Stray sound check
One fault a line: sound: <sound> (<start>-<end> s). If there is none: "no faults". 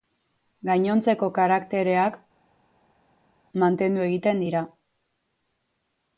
no faults